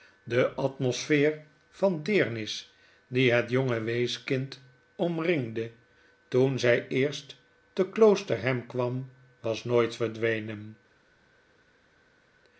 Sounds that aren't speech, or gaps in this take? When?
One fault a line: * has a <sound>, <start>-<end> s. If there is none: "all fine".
all fine